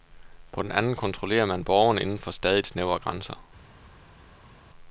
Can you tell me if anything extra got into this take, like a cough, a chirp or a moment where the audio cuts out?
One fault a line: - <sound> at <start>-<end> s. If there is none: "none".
none